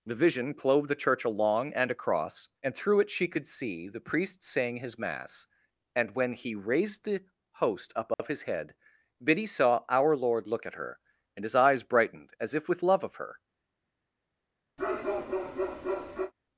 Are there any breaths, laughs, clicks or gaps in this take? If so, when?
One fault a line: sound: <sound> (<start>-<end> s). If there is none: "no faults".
sound: dropout (8.1-8.2 s)
sound: bark (14.8-16.3 s)